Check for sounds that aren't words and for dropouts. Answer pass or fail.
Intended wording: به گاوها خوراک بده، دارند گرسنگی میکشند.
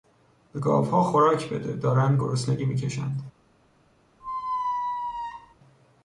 fail